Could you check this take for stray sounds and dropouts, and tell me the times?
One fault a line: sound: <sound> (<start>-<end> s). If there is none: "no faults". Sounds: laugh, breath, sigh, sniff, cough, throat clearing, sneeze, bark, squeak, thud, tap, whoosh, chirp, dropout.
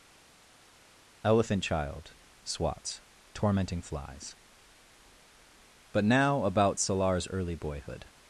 no faults